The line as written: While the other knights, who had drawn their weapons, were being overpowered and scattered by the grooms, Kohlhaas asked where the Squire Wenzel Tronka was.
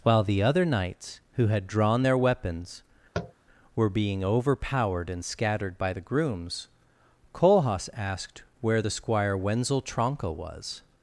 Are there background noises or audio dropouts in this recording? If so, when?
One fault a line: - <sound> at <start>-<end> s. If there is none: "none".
- tap at 3.1-3.3 s